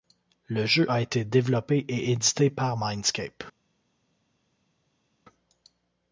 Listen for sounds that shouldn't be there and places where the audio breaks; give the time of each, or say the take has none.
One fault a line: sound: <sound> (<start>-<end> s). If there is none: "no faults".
no faults